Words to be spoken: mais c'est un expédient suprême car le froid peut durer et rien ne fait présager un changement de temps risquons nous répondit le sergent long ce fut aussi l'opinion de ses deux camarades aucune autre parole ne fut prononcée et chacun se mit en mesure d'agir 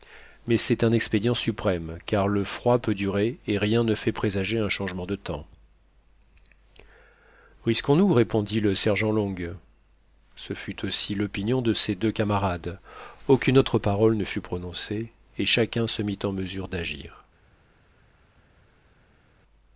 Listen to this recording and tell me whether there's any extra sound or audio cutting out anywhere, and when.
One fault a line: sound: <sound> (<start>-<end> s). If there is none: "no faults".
no faults